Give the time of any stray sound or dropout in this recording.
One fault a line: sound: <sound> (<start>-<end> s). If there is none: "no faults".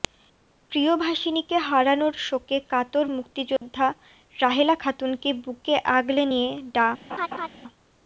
sound: dropout (3.6-3.6 s)
sound: laugh (7.1-7.5 s)